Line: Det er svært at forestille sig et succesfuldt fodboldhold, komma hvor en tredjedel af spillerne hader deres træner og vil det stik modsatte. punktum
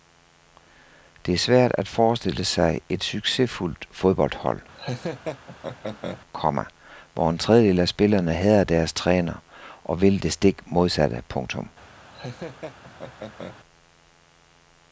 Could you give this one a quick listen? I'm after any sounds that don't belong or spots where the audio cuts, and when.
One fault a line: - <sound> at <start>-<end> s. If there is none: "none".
- laugh at 4.7-6.2 s
- laugh at 12.1-13.6 s